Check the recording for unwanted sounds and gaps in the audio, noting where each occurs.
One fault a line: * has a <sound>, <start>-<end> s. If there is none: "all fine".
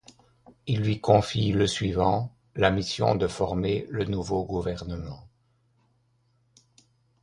all fine